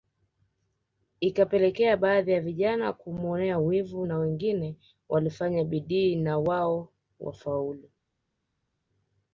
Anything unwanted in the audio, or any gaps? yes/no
no